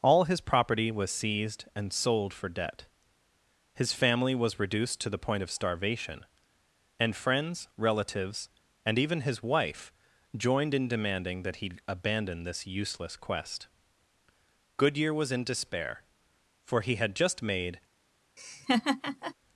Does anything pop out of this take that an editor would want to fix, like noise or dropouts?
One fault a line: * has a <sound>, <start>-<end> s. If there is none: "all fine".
* has a laugh, 18.4-19.3 s